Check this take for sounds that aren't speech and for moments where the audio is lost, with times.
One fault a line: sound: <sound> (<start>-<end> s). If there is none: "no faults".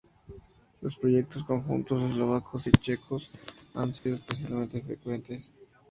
sound: dropout (4.0-4.1 s)